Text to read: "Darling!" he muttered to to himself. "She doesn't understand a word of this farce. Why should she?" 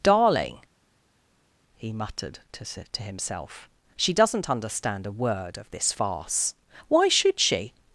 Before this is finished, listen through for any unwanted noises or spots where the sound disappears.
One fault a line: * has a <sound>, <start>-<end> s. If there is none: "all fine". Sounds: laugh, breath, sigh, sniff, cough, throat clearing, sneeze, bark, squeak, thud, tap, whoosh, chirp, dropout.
all fine